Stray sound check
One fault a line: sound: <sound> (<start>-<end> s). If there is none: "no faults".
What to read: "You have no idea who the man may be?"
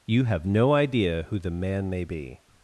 no faults